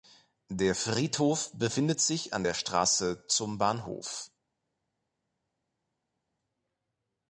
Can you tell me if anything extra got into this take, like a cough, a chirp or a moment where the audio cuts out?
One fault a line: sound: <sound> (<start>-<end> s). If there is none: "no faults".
no faults